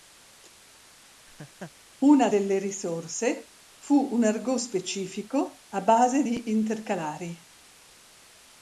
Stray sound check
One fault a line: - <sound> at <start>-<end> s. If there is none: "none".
- laugh at 1.3-1.7 s